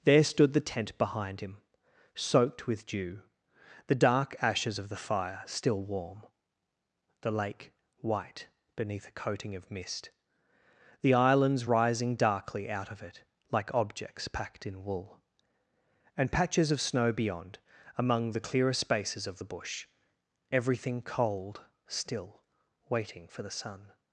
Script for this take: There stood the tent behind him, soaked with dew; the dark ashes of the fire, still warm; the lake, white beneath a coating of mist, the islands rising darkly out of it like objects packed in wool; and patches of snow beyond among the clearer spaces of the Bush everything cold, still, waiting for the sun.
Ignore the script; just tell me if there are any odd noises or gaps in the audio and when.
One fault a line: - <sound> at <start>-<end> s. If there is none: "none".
none